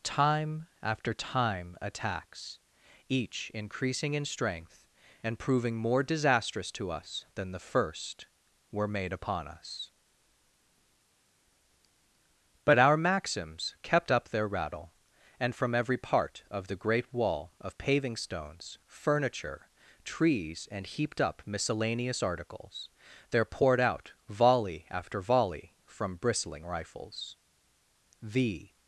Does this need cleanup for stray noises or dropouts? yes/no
no